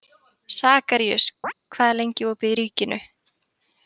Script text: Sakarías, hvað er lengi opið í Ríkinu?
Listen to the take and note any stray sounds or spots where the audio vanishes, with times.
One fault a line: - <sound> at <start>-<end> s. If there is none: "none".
- chirp at 1.4-1.5 s